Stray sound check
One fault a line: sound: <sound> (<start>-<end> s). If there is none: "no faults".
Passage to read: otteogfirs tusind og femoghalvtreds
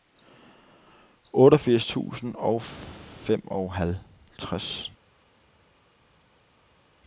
no faults